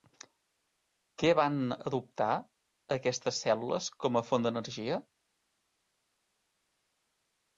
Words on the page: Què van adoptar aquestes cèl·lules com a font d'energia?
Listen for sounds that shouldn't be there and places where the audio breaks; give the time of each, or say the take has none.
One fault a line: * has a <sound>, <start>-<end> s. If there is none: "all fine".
all fine